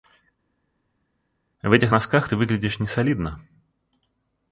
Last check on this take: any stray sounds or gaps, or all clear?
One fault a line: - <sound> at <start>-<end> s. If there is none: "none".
none